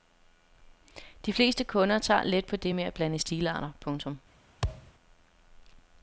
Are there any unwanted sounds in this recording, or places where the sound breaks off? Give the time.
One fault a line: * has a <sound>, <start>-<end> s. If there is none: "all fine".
* has a thud, 4.6-4.9 s